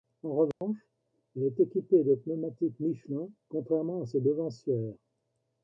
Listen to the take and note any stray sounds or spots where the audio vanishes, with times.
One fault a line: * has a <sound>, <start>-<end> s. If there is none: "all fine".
* has a dropout, 0.5-0.6 s